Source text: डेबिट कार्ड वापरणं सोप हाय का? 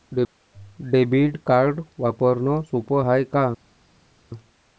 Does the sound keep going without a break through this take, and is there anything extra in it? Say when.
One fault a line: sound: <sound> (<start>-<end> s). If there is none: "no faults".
no faults